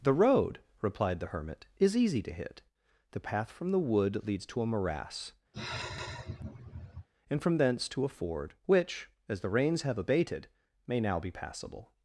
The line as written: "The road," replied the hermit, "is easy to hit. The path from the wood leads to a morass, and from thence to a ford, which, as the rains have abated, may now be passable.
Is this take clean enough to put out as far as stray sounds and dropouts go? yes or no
no